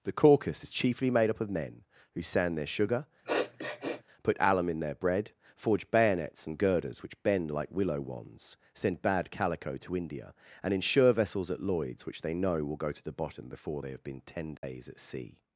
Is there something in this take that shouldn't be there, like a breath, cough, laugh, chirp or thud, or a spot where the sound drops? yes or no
yes